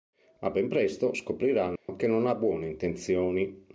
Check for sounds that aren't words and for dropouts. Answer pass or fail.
fail